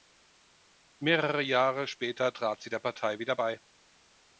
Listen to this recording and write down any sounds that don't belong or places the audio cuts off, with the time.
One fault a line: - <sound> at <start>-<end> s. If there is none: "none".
none